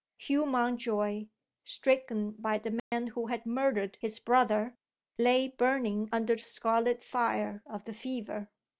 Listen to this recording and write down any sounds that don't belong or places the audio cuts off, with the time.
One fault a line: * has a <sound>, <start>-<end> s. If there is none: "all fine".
* has a dropout, 2.8-2.9 s